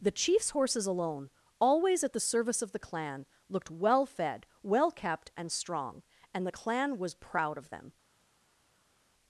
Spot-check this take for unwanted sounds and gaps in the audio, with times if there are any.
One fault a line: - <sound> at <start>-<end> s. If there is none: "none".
none